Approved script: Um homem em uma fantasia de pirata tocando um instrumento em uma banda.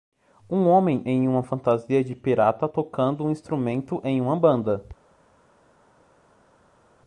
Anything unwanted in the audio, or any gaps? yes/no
no